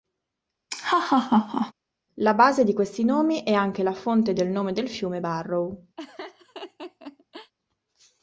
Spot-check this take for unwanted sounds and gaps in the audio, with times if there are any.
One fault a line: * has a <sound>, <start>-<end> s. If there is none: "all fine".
* has a laugh, 0.7-1.7 s
* has a laugh, 6.0-7.5 s